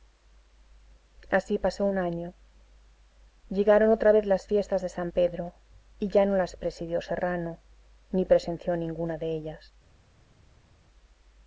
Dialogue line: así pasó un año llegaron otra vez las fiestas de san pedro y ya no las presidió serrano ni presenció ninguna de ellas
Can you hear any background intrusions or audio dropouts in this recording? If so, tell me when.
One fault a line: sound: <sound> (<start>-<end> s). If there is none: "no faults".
no faults